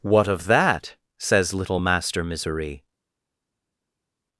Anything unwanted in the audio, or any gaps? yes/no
no